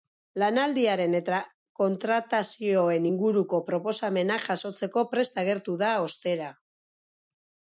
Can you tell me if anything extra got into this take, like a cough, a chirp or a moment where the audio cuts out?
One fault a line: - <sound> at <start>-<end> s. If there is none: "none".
none